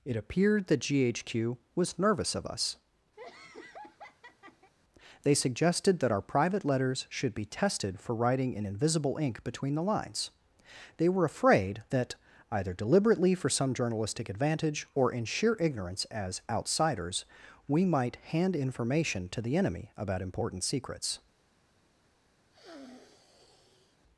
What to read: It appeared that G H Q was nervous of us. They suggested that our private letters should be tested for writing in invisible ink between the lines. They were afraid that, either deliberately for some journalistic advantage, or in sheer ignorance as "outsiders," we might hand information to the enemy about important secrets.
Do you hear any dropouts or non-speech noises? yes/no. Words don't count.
yes